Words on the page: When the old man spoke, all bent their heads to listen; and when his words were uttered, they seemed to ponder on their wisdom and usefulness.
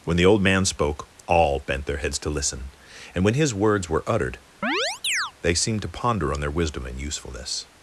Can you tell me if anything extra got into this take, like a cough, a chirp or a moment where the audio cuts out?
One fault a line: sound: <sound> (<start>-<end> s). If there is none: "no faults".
sound: chirp (4.6-5.3 s)